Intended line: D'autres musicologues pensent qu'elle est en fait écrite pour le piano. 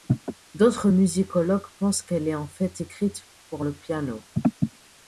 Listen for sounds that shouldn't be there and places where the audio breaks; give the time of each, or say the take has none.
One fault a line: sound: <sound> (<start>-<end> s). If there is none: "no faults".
no faults